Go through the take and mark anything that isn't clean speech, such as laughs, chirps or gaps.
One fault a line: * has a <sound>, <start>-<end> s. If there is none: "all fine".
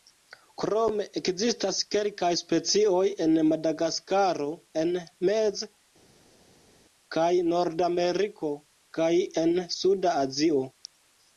all fine